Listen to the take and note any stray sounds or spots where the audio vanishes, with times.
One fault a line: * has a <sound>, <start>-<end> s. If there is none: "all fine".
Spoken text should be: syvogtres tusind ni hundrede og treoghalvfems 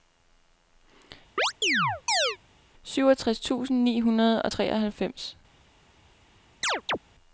* has a chirp, 1.4-2.4 s
* has a chirp, 6.6-7.0 s